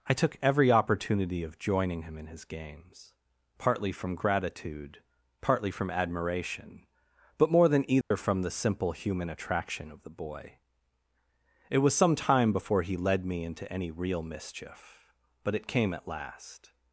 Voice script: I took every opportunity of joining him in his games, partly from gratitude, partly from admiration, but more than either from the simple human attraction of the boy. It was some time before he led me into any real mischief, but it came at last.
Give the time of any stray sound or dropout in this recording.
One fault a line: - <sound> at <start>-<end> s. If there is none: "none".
- dropout at 8.0-8.1 s